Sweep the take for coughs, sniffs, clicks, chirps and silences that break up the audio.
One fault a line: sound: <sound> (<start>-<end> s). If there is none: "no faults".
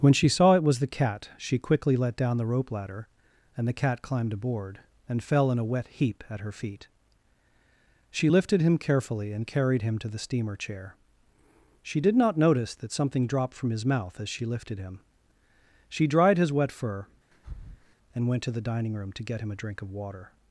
sound: breath (17.3-18.0 s)